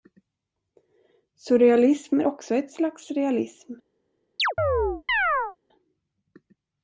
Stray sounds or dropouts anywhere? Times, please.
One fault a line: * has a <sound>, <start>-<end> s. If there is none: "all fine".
* has a chirp, 4.4-5.6 s